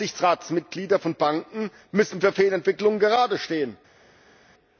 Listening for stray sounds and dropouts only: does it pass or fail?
pass